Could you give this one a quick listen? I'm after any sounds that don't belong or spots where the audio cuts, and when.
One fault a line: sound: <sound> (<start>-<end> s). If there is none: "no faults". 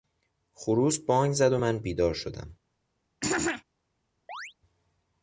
sound: throat clearing (3.2-3.6 s)
sound: chirp (4.3-4.5 s)